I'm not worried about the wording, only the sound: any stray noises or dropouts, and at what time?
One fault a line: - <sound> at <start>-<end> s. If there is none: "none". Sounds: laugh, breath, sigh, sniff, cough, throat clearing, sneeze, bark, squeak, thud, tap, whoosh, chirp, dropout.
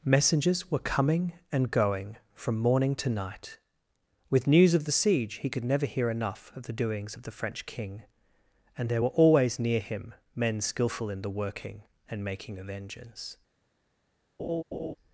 - laugh at 14.4-14.9 s